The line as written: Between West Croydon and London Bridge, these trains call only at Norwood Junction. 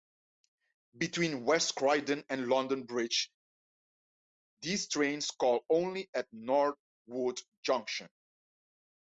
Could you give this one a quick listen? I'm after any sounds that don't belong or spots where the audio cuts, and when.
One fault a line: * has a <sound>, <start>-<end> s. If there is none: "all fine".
all fine